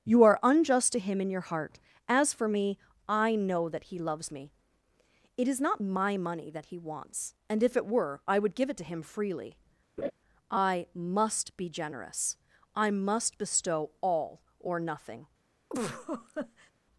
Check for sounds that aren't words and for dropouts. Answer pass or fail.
fail